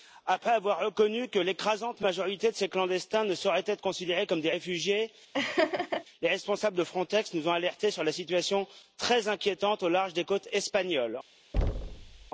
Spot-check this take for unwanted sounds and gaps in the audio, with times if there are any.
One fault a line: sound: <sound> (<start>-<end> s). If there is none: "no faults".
sound: laugh (5.3-6.0 s)
sound: thud (11.5-12.3 s)